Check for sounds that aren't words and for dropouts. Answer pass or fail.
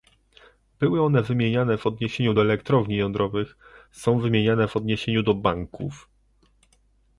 pass